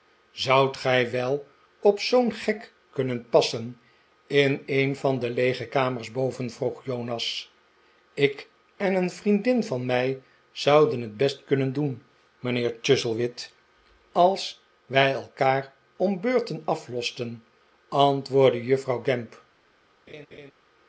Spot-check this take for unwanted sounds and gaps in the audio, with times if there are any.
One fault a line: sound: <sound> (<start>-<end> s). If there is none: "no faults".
sound: laugh (20.1-20.5 s)